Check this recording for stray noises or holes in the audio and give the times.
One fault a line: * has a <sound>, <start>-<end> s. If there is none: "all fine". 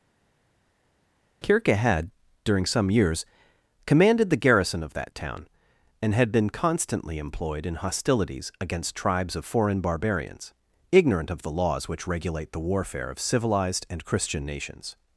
all fine